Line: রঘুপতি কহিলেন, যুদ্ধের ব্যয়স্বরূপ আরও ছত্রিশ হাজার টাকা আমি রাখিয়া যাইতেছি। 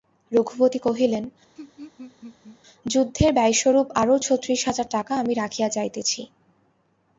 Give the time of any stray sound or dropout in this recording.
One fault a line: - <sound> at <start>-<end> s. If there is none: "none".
- laugh at 1.6-2.6 s